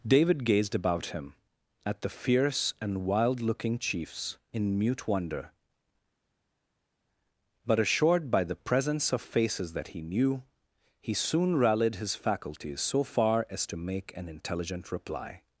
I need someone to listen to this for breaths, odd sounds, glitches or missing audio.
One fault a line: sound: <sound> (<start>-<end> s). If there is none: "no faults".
no faults